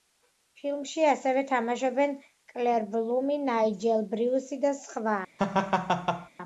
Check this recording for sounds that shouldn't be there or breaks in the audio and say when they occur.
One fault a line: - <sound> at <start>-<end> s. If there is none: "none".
- laugh at 5.4-6.3 s